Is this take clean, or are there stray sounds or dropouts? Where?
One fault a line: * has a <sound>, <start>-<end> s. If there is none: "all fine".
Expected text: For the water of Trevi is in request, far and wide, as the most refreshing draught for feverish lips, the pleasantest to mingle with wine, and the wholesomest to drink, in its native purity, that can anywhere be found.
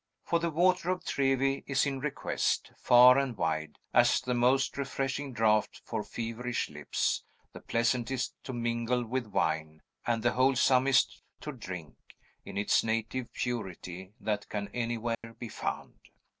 * has a dropout, 15.1-15.2 s